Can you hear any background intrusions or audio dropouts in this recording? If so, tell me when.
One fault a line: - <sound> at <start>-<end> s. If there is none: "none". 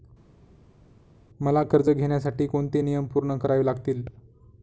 none